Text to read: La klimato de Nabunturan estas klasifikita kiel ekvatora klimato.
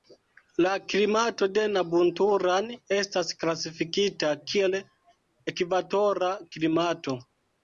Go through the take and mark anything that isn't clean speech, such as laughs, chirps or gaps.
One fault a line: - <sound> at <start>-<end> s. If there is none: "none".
none